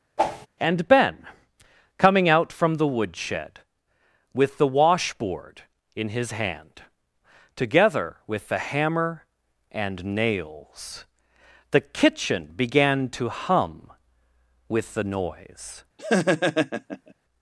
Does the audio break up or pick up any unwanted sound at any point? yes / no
yes